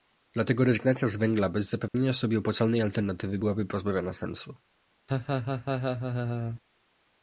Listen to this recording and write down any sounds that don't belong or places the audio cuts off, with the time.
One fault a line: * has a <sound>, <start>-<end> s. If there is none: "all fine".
* has a dropout, 1.9-1.9 s
* has a laugh, 5.1-6.6 s